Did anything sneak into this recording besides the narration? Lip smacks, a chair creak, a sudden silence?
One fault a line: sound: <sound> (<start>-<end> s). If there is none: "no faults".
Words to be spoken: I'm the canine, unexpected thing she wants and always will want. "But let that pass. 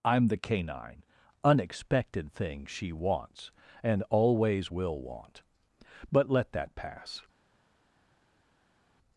no faults